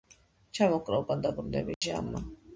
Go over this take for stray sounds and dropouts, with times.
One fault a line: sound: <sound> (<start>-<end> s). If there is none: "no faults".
sound: dropout (1.7-1.8 s)